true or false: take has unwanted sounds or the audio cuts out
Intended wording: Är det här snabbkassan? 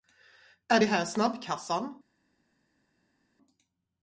false